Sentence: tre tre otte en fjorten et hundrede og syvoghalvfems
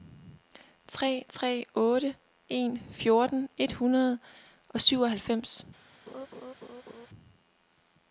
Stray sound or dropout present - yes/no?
yes